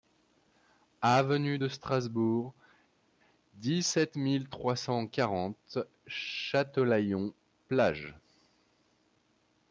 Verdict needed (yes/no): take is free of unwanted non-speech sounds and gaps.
yes